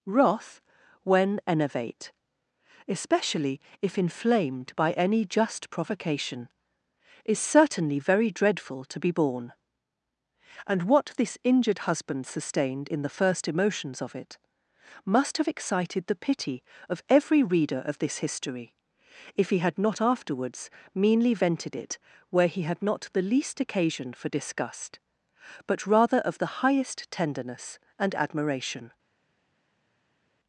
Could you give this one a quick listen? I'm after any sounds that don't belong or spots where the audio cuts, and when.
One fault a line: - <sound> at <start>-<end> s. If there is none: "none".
none